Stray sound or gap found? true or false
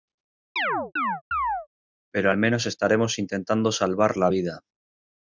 true